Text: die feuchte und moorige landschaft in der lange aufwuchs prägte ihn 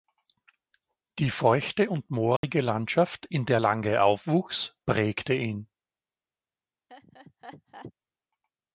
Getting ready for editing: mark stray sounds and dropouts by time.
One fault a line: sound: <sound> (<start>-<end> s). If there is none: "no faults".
sound: dropout (2.4-2.4 s)
sound: laugh (6.9-7.9 s)